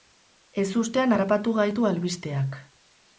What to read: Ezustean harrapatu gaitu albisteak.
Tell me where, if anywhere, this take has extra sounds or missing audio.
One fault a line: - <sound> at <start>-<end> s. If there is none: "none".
none